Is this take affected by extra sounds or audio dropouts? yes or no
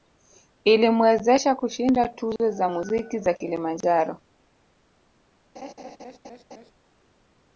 yes